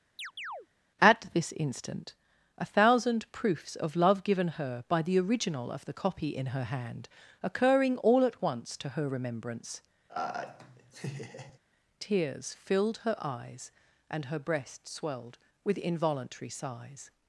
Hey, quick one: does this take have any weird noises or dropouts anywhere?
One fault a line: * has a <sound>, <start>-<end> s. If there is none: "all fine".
* has a chirp, 0.2-0.7 s
* has a laugh, 10.1-11.6 s